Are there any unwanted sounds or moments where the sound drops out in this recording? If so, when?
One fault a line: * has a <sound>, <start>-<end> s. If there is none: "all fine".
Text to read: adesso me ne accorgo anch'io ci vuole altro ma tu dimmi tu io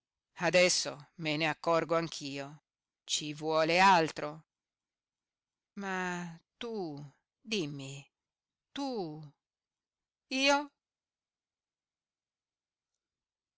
all fine